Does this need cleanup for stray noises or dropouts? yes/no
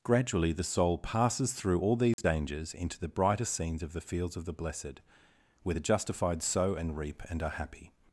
yes